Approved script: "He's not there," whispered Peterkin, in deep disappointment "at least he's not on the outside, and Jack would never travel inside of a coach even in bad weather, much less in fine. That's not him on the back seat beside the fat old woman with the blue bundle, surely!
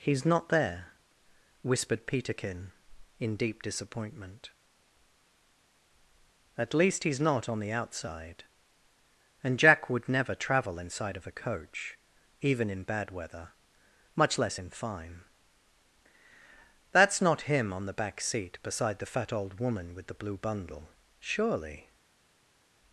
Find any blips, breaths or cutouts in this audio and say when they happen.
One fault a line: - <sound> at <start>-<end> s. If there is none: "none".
none